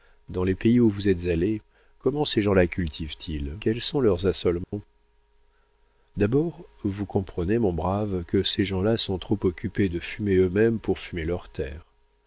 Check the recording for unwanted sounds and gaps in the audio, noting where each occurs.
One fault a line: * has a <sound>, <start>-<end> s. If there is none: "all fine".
* has a dropout, 4.6-4.7 s